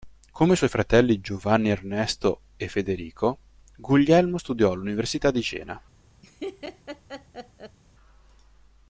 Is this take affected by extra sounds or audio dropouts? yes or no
yes